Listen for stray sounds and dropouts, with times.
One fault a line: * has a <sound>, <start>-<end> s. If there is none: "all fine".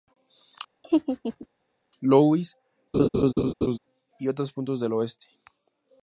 * has a laugh, 0.8-1.5 s
* has a laugh, 2.9-3.8 s